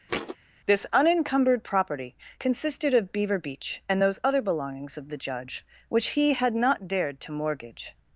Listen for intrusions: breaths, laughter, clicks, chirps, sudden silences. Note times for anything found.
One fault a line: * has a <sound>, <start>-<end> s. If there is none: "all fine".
* has a thud, 0.1-0.4 s